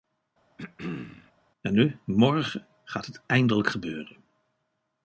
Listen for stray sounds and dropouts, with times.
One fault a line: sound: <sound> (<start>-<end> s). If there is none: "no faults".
sound: throat clearing (0.6-1.3 s)